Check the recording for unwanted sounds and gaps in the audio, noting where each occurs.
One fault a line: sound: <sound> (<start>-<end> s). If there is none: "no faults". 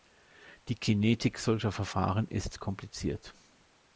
no faults